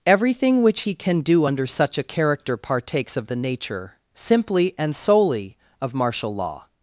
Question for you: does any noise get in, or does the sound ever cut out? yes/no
no